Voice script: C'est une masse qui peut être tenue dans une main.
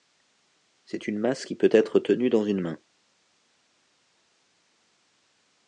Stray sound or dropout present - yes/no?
no